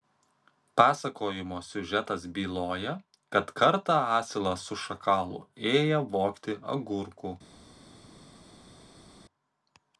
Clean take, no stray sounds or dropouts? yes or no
yes